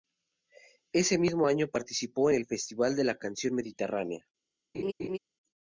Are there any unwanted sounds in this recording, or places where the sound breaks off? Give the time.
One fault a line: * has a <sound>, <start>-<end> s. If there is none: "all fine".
* has a laugh, 4.7-5.2 s